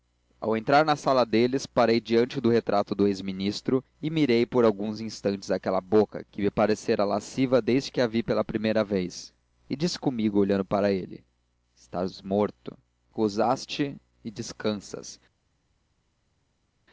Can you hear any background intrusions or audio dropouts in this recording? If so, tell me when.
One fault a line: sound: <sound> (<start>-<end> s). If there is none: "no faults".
no faults